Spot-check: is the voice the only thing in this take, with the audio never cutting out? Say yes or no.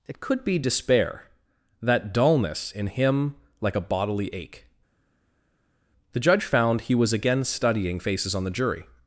yes